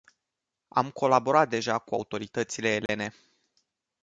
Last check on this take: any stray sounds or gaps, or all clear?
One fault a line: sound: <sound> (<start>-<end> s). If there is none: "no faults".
sound: dropout (2.9-2.9 s)